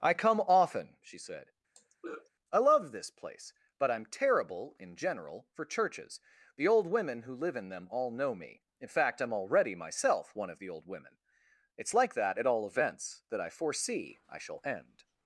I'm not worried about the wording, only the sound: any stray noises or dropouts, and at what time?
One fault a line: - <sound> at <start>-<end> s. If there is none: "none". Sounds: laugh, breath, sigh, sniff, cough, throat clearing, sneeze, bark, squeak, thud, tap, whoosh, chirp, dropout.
- throat clearing at 1.7-2.3 s